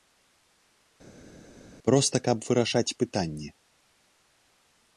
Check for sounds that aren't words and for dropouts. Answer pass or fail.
pass